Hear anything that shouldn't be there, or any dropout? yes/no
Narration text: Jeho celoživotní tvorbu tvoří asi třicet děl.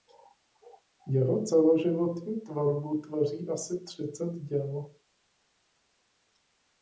no